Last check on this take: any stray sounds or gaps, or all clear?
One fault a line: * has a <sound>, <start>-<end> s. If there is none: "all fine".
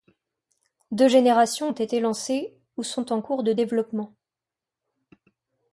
all fine